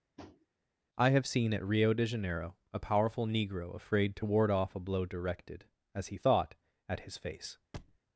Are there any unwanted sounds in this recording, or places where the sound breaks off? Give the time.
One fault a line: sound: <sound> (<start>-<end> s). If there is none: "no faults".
sound: tap (0.2-0.5 s)
sound: thud (7.7-8.0 s)